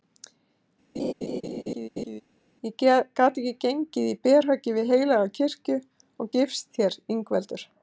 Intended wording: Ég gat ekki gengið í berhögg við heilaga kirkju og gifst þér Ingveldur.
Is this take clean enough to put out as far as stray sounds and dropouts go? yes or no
no